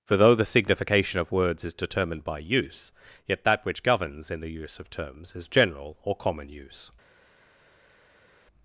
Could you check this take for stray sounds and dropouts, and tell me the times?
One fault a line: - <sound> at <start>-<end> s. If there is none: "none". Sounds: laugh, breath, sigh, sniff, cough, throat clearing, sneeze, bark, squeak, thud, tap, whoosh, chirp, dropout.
none